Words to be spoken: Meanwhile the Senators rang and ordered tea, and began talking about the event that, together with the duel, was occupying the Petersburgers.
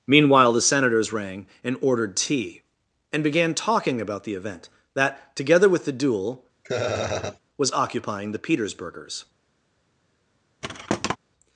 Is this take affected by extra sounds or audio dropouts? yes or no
yes